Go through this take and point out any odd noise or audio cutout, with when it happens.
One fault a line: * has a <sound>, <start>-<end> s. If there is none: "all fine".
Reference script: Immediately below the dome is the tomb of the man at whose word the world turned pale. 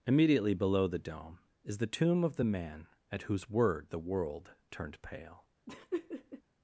* has a laugh, 5.7-6.4 s